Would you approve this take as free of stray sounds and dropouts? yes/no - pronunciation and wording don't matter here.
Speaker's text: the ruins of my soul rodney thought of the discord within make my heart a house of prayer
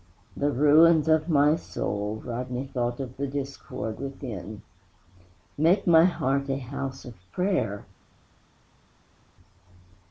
yes